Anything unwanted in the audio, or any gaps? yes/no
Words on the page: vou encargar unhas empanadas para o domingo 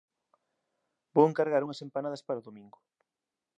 no